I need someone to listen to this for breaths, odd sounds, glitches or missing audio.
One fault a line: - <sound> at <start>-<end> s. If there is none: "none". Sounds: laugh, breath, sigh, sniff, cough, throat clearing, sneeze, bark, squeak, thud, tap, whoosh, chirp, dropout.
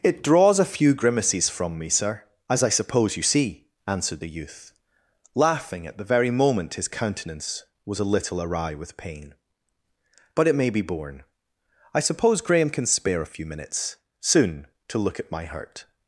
none